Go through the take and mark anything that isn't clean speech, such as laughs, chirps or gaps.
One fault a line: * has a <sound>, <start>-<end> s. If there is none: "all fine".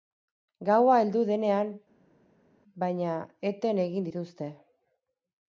all fine